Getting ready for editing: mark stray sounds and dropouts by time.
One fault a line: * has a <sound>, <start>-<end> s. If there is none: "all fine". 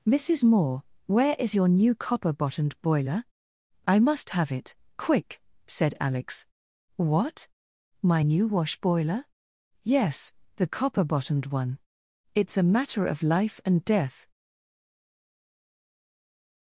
all fine